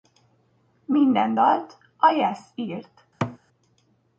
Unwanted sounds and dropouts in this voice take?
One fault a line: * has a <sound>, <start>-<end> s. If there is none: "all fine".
* has a thud, 3.2-3.4 s